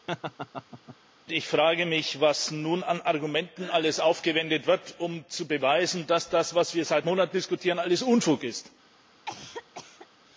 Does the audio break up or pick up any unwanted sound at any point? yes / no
yes